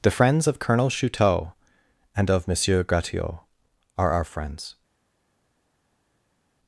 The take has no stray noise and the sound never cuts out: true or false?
true